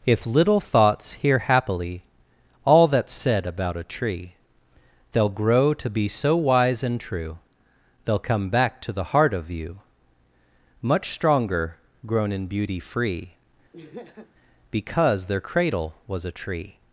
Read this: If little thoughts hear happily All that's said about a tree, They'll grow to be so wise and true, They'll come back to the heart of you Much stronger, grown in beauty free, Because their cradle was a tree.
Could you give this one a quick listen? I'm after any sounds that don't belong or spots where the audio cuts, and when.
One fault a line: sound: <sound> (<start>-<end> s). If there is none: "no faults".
sound: laugh (13.7-14.3 s)